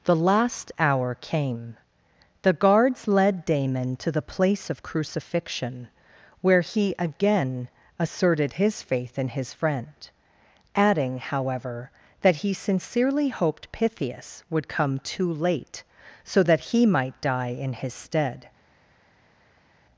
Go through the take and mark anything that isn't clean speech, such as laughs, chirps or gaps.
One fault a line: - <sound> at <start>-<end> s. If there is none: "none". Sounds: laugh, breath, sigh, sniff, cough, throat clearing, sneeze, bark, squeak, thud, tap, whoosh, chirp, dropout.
none